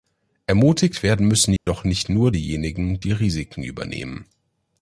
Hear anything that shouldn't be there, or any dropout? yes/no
yes